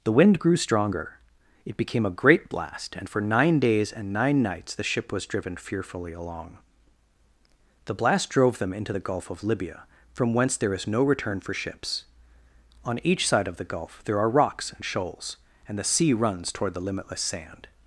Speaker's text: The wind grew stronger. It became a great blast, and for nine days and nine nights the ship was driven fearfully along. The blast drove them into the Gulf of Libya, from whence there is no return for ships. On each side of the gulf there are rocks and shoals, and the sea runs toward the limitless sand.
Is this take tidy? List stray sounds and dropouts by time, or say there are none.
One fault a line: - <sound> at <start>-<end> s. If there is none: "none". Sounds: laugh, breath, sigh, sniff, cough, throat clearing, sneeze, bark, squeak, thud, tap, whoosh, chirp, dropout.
none